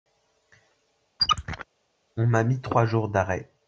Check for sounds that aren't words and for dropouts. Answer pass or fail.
fail